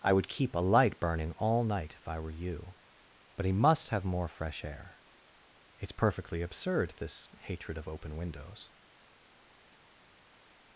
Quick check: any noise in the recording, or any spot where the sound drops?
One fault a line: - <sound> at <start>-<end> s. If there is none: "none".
none